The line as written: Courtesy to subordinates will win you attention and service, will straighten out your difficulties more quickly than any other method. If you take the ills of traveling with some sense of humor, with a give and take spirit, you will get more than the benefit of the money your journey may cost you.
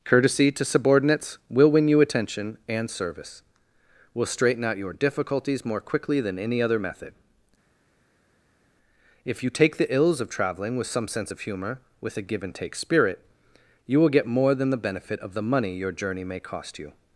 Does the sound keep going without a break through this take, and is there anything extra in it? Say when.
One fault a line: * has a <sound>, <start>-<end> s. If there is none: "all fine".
all fine